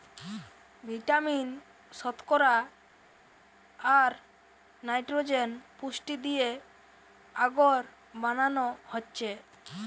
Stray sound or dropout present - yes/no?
no